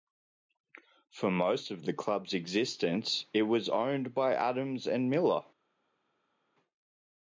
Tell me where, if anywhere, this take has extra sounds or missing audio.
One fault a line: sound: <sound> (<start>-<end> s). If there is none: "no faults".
no faults